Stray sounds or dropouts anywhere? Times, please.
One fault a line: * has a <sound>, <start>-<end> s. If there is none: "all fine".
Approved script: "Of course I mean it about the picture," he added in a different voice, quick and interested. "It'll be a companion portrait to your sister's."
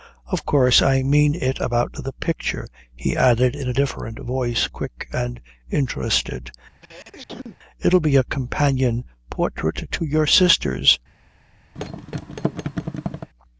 * has a sneeze, 6.8-7.6 s
* has a thud, 11.8-13.3 s